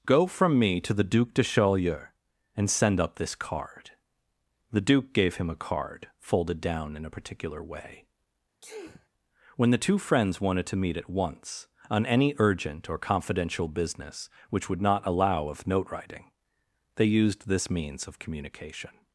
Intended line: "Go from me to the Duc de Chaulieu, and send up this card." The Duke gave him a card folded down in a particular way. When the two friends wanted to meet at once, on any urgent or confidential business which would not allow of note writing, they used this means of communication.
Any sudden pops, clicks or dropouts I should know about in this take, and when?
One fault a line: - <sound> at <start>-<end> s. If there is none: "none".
- sneeze at 8.6-9.1 s